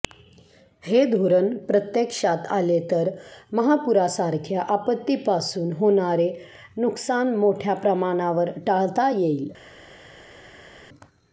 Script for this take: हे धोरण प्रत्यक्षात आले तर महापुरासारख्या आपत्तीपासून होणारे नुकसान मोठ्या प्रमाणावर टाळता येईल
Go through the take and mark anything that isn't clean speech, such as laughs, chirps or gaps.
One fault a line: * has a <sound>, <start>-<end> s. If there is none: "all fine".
all fine